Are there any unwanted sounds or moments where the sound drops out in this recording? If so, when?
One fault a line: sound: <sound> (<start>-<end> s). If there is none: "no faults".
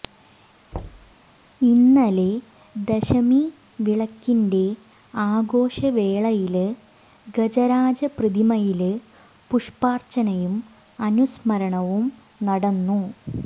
sound: thud (0.7-1.2 s)